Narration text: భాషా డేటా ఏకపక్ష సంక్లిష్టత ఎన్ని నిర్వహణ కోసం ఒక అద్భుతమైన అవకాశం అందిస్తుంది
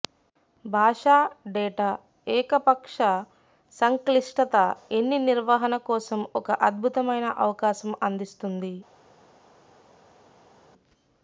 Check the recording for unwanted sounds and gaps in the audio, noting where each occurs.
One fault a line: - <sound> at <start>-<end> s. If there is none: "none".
none